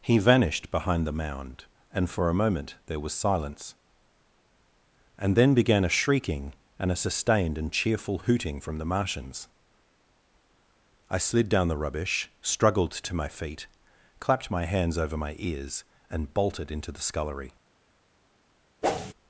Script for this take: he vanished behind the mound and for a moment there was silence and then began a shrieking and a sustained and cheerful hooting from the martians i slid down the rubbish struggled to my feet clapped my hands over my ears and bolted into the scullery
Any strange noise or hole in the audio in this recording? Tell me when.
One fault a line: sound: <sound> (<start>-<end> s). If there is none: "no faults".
sound: whoosh (18.8-19.1 s)